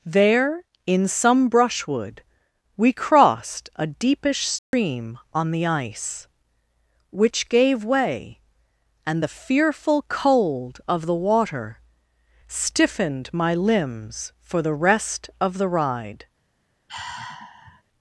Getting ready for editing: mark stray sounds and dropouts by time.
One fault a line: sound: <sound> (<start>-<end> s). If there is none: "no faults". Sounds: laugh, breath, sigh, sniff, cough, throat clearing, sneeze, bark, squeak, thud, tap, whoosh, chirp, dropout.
sound: dropout (4.6-4.7 s)
sound: sigh (16.9-17.8 s)